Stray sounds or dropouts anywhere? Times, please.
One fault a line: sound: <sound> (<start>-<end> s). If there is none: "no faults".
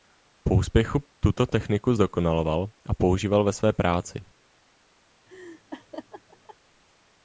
sound: laugh (5.3-6.6 s)